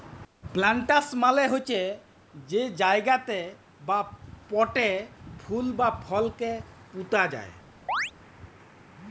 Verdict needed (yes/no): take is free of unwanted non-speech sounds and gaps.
no